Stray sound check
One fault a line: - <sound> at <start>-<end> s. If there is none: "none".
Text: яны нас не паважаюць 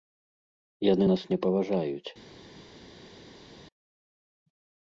none